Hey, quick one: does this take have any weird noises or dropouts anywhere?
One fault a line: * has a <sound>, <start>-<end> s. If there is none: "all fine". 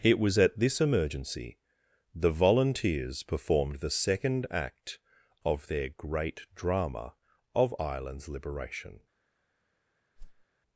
* has a whoosh, 10.2-10.5 s